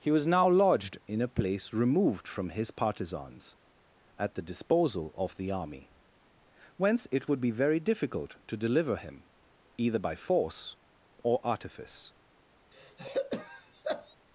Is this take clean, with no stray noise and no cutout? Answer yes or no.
no